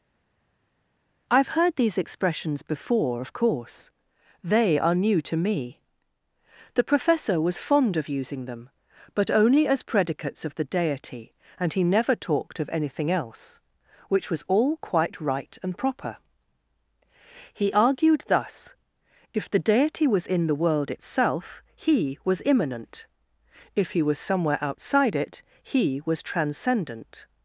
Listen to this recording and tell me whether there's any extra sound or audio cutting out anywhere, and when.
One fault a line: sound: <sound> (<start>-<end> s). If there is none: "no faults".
no faults